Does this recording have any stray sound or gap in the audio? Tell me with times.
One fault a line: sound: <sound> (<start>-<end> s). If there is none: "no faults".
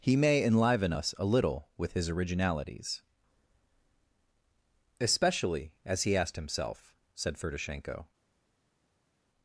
no faults